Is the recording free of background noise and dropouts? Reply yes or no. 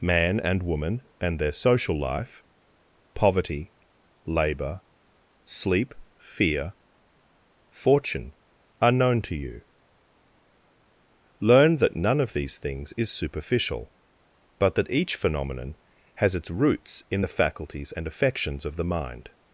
yes